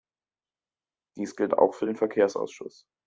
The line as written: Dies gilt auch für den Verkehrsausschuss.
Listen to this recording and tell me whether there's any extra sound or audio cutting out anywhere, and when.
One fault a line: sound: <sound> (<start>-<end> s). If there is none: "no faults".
no faults